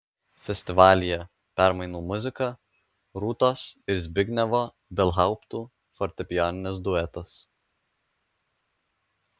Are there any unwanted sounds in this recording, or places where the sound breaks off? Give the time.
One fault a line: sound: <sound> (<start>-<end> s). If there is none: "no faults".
no faults